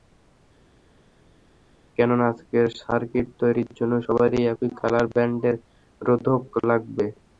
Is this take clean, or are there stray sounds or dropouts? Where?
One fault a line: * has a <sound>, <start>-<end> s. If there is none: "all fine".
all fine